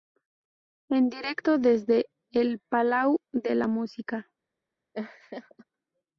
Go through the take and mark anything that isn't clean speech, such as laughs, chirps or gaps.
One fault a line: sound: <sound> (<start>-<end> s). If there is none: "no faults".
sound: laugh (4.9-5.6 s)